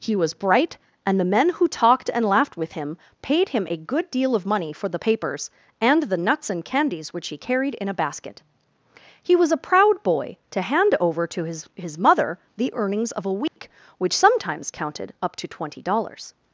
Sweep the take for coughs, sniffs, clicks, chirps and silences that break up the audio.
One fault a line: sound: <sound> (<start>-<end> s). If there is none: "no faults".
sound: dropout (13.5-13.6 s)